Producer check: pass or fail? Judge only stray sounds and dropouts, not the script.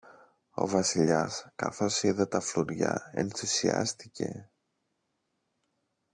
pass